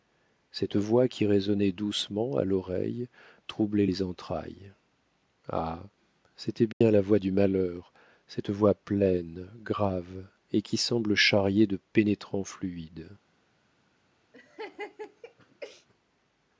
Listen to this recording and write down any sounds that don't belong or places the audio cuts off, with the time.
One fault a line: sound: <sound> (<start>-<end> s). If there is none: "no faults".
sound: dropout (6.7-6.8 s)
sound: laugh (14.3-15.9 s)